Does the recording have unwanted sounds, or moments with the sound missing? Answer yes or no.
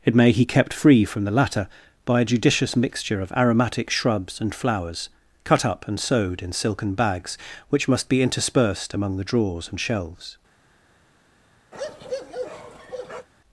yes